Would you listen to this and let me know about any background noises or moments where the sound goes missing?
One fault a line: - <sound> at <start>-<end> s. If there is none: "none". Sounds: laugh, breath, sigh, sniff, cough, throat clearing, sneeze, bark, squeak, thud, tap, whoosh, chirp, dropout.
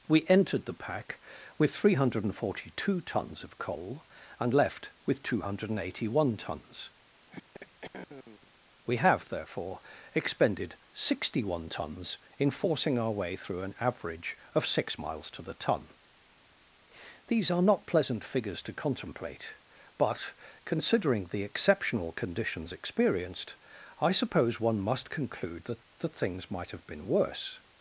- throat clearing at 7.3-8.5 s